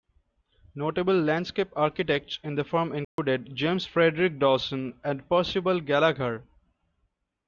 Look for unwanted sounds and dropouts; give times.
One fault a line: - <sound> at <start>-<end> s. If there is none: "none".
- dropout at 3.0-3.2 s